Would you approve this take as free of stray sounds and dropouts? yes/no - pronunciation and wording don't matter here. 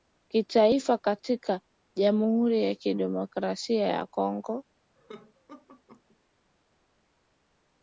no